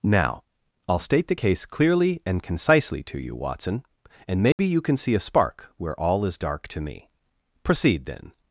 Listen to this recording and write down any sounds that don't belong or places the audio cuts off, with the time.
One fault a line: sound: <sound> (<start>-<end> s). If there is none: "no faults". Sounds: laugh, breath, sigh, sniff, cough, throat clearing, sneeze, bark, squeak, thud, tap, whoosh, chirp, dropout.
sound: dropout (4.5-4.6 s)